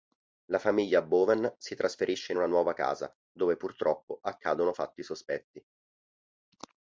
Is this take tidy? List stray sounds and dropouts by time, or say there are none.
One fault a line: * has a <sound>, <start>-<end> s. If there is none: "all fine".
all fine